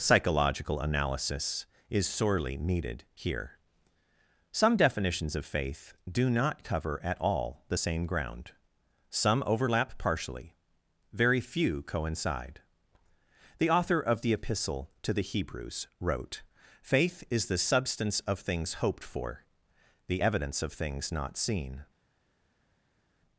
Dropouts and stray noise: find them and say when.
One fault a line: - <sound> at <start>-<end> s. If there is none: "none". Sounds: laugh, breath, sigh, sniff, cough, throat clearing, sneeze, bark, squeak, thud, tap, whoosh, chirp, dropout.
none